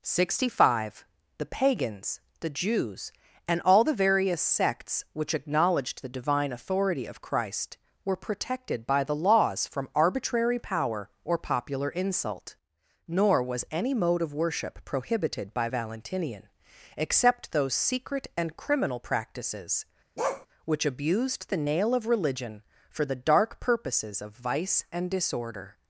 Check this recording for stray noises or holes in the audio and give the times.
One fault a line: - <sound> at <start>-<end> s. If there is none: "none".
- bark at 20.2-20.5 s